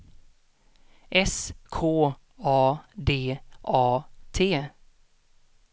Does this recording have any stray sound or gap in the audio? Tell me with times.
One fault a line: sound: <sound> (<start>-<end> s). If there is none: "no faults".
no faults